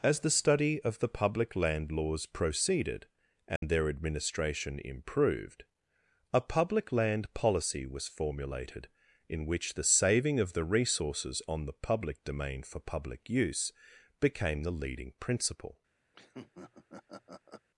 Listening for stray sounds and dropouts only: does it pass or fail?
fail